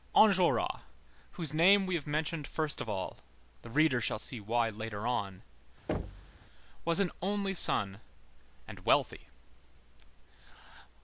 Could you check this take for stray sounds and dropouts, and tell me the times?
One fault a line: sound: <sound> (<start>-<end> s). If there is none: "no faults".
sound: thud (5.9-6.4 s)